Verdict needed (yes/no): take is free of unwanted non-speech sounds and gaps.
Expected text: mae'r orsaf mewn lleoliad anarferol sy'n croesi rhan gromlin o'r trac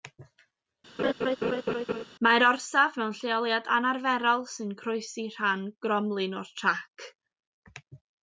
no